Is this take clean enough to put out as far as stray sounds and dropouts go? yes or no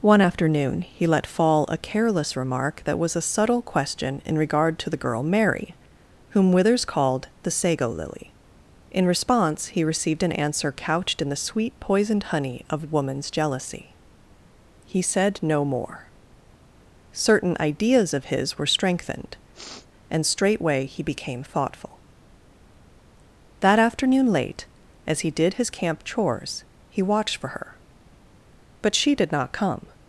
no